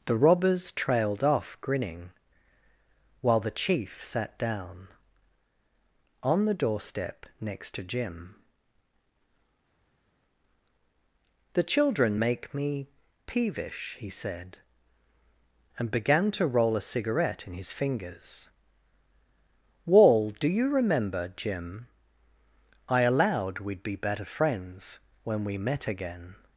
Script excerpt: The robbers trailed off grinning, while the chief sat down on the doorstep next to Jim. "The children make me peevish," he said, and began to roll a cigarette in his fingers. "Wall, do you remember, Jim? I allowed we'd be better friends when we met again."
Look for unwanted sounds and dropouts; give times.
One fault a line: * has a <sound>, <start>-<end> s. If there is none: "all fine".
all fine